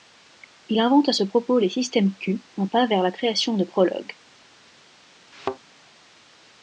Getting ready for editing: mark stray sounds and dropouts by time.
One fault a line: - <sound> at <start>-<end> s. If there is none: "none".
- thud at 5.3-5.6 s